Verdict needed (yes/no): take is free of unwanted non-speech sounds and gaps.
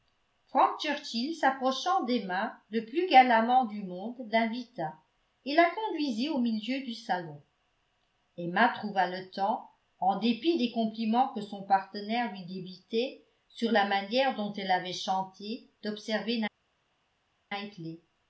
yes